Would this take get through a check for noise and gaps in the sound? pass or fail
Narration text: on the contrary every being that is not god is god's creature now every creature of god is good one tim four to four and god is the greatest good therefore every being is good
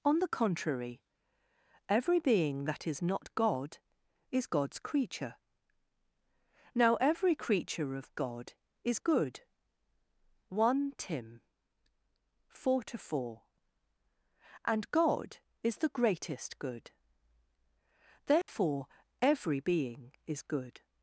fail